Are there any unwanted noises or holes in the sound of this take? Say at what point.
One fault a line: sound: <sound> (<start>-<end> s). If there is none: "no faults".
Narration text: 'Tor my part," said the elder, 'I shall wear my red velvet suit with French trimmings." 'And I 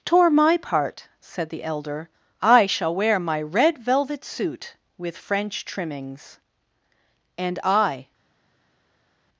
no faults